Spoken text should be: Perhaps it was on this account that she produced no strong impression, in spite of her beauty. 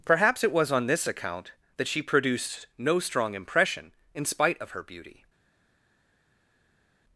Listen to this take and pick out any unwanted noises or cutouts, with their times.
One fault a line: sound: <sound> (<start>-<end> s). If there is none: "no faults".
no faults